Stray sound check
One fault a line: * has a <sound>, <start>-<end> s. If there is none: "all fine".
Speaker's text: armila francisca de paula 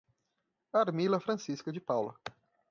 all fine